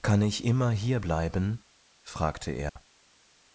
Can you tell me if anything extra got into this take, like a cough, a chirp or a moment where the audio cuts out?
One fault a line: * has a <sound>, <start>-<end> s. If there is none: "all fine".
* has a dropout, 2.7-2.8 s